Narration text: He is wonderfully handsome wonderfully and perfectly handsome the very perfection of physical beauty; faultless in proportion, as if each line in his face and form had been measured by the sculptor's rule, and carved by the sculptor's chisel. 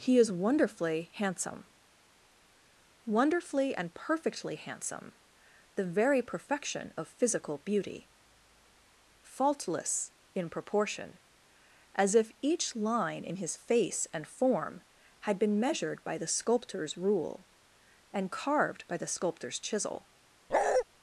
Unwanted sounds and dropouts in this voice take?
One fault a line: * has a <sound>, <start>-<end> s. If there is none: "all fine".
* has a bark, 20.5-20.8 s